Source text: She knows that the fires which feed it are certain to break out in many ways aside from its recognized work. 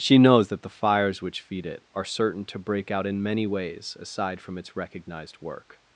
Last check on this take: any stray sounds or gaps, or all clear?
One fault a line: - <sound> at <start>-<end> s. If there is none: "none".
none